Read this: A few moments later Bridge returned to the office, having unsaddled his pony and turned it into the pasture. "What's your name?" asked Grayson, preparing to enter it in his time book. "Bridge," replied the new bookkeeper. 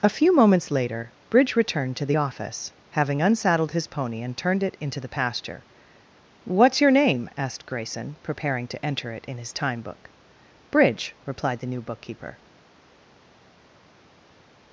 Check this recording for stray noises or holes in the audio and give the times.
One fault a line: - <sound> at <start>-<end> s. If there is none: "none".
none